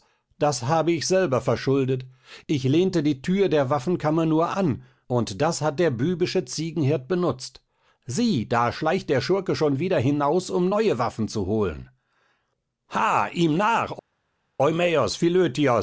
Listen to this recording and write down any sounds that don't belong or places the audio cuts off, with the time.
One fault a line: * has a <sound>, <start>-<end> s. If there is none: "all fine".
all fine